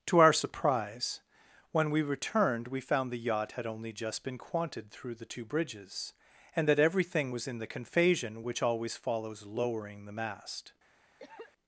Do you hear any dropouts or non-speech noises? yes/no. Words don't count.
yes